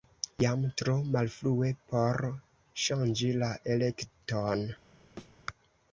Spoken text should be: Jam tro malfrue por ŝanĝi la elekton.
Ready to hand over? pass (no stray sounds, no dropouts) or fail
fail